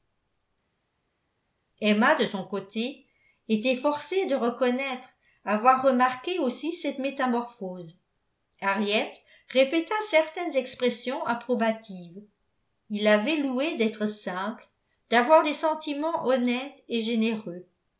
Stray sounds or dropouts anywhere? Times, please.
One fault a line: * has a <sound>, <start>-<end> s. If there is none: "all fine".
all fine